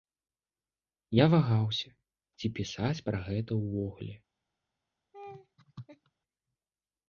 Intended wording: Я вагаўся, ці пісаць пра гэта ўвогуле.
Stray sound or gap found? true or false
true